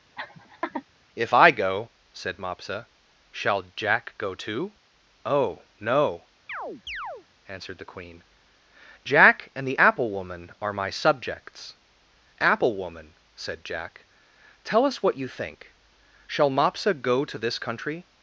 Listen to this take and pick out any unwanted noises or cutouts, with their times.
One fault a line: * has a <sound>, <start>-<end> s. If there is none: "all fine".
* has a laugh, 0.2-0.8 s
* has a chirp, 6.5-7.3 s